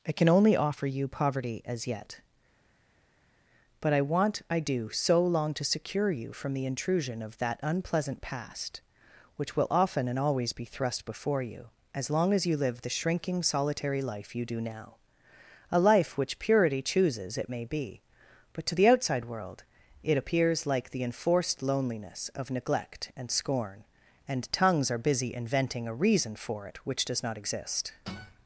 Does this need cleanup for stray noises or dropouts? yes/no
no